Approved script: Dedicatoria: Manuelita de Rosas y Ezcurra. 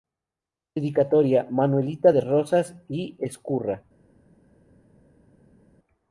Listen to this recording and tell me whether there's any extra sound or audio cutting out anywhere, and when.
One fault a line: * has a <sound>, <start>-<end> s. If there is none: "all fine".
all fine